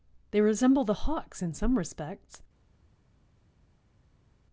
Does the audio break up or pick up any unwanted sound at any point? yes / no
no